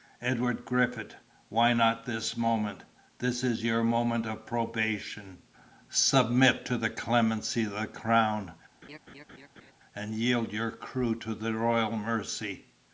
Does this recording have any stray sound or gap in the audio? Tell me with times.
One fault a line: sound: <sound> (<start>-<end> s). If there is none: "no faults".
sound: laugh (8.8-9.7 s)